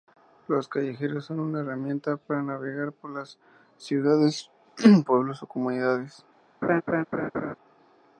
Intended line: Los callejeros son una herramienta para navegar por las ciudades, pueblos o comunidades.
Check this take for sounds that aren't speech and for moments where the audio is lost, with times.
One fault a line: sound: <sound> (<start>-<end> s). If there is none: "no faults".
sound: laugh (6.6-7.6 s)